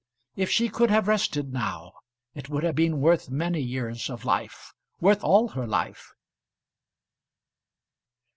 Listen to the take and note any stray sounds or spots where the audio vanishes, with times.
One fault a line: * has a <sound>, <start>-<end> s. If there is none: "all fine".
all fine